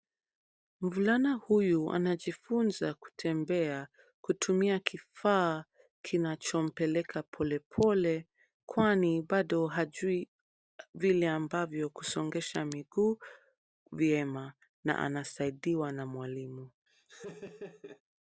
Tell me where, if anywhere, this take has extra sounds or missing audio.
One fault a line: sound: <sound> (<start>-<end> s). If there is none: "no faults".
sound: laugh (16.9-18.0 s)